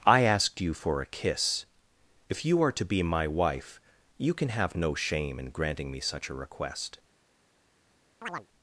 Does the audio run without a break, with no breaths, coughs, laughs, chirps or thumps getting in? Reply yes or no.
no